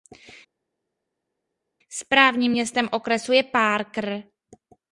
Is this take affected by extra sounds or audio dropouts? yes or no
no